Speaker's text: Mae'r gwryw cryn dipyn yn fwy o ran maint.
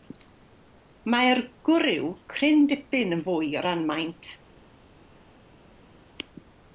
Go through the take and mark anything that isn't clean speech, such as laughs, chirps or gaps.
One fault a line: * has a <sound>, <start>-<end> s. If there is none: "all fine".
all fine